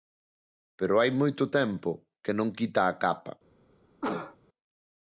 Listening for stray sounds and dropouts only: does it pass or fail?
fail